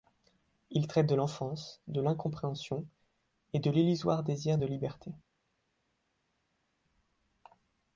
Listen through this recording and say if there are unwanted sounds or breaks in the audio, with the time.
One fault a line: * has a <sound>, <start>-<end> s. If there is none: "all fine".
all fine